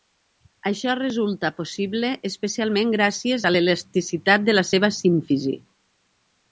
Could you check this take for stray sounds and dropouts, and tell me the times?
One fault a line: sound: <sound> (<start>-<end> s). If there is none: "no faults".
no faults